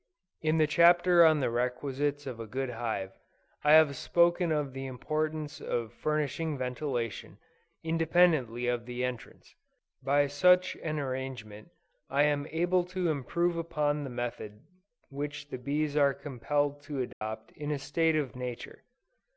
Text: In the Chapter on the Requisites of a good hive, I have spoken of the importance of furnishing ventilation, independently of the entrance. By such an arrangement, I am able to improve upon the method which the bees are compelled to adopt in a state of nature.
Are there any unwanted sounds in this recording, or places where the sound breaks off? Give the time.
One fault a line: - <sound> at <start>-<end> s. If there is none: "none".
- dropout at 17.1-17.2 s